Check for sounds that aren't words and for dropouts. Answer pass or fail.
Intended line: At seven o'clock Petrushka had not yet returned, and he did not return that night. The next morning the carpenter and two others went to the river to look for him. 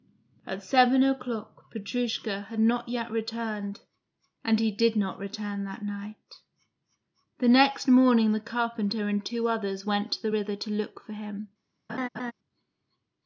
fail